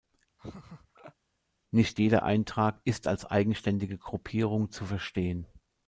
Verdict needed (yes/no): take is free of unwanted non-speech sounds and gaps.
no